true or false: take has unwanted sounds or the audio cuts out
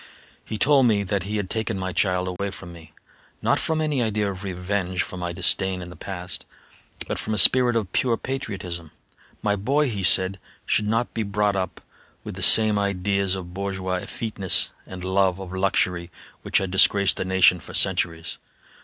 true